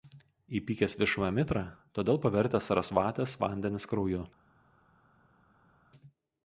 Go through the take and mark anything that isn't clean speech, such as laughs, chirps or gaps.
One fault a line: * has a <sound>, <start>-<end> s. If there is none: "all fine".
all fine